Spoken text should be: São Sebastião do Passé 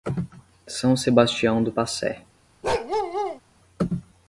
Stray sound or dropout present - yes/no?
yes